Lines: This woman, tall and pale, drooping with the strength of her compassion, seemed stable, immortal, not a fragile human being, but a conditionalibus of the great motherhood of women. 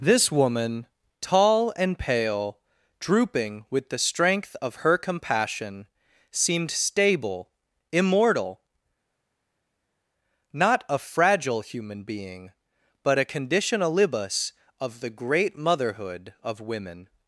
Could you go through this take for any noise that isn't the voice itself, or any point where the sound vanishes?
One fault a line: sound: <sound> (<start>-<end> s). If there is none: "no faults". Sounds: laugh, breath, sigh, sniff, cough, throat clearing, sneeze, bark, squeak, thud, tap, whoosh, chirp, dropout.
no faults